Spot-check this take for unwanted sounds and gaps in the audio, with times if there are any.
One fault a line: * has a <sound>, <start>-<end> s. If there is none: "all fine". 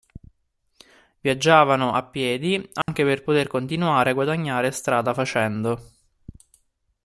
* has a dropout, 2.8-2.9 s